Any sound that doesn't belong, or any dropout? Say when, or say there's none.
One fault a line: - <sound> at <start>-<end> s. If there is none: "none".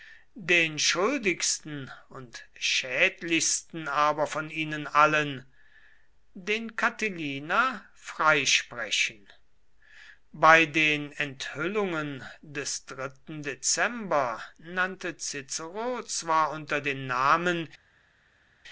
none